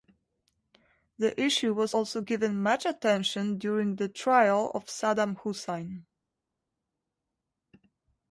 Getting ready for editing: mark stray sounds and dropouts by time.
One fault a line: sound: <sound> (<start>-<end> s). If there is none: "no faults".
no faults